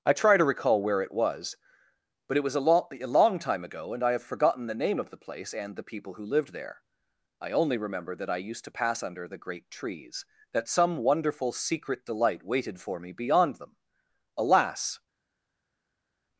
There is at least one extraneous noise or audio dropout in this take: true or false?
false